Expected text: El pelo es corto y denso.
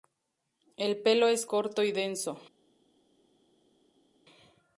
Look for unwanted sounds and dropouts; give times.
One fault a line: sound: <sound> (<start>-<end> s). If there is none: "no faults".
no faults